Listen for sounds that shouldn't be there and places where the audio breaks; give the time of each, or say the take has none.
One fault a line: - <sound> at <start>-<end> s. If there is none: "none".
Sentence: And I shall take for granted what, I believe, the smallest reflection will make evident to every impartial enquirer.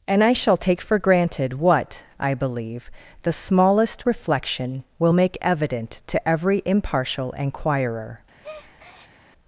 - breath at 8.4-9.2 s